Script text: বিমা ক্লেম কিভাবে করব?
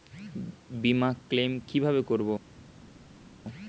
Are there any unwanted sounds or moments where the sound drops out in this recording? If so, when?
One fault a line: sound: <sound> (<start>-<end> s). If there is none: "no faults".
no faults